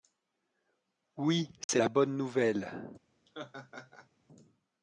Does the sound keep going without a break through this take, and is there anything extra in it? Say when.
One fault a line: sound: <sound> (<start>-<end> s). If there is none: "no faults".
sound: dropout (1.6-1.7 s)
sound: laugh (3.3-4.1 s)